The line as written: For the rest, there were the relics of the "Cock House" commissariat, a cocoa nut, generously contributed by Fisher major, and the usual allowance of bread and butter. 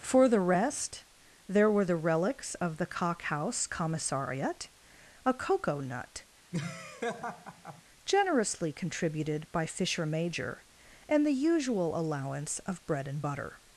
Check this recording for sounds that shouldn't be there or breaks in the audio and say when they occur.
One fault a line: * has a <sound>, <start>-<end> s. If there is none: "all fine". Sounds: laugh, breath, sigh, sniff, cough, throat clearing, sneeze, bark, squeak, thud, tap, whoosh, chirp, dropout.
* has a laugh, 6.5-7.8 s